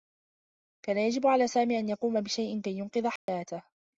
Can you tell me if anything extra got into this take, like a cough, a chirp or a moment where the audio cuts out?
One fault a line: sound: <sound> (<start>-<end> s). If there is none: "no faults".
sound: dropout (3.2-3.3 s)